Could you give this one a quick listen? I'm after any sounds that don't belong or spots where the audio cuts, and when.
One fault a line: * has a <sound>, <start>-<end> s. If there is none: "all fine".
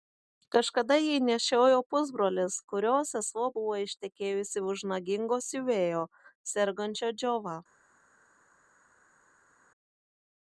all fine